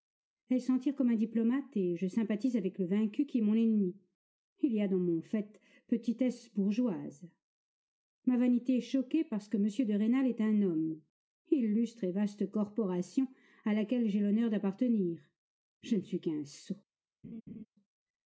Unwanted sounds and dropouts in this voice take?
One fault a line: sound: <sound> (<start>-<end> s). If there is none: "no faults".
sound: laugh (17.2-17.7 s)